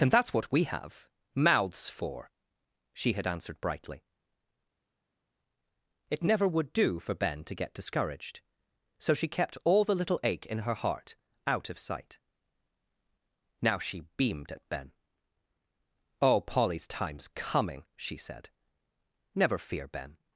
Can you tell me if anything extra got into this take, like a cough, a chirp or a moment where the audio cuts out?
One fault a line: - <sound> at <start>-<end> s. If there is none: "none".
none